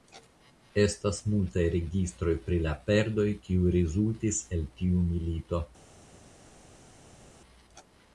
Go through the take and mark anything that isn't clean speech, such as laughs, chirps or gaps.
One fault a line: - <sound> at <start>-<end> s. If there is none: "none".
none